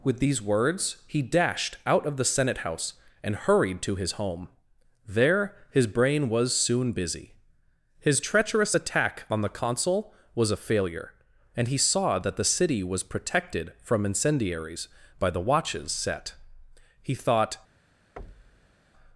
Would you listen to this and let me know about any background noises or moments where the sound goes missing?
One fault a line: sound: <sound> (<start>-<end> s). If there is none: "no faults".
sound: thud (18.2-18.7 s)